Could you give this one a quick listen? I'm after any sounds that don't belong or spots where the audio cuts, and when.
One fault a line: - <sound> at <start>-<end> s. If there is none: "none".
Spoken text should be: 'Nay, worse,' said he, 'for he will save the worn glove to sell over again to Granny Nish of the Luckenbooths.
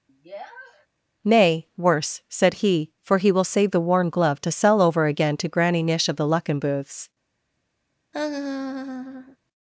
- sniff at 0.1-0.9 s
- laugh at 8.1-9.4 s